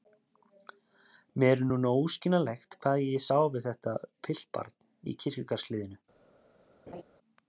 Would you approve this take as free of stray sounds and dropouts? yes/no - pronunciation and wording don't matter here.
no